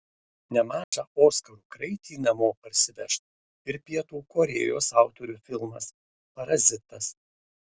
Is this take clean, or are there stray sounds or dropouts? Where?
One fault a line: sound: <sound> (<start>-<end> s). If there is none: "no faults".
sound: dropout (0.8-0.9 s)